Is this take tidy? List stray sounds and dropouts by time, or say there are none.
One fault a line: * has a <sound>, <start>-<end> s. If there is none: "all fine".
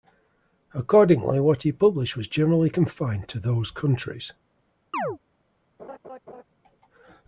* has a chirp, 4.9-5.2 s
* has a laugh, 5.8-6.4 s